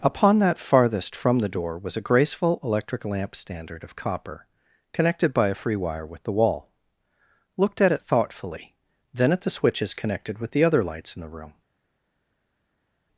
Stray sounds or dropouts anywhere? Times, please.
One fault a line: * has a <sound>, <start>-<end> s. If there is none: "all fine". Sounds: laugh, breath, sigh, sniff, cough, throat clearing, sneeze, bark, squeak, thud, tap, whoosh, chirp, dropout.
all fine